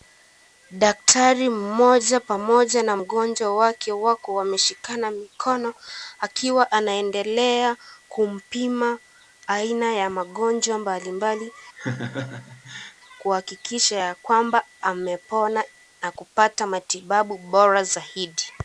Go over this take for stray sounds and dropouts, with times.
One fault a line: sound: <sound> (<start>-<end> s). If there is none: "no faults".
sound: laugh (11.8-12.9 s)